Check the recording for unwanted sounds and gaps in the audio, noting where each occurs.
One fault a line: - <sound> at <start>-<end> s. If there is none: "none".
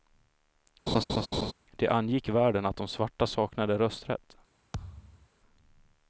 - laugh at 0.9-1.5 s
- thud at 4.7-5.3 s